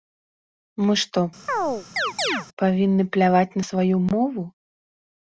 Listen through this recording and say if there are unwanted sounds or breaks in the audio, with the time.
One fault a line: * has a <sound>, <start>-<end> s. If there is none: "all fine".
* has a chirp, 1.5-2.5 s